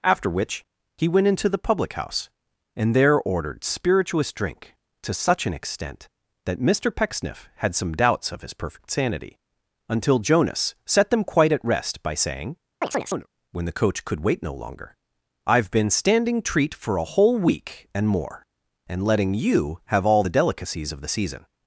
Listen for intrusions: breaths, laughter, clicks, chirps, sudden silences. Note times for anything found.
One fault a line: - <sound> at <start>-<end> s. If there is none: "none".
- chirp at 12.8-13.3 s